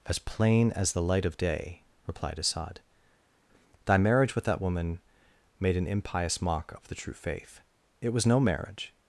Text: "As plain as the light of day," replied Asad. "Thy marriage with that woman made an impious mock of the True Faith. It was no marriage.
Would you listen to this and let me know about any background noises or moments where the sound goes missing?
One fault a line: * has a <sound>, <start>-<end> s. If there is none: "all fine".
all fine